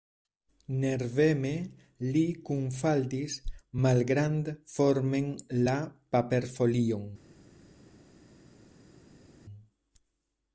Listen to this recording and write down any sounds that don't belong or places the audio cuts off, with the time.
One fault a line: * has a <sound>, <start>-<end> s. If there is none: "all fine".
all fine